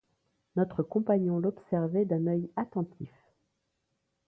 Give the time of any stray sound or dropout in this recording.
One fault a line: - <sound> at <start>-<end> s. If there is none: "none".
none